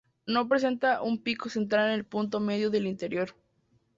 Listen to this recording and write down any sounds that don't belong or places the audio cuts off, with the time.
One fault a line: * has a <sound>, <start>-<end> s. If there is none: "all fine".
all fine